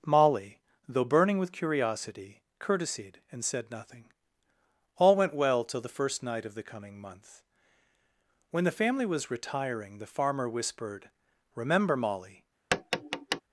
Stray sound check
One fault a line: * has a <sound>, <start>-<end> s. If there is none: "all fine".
* has a tap, 12.7-13.4 s